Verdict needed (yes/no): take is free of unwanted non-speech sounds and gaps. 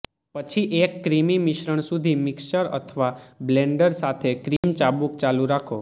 no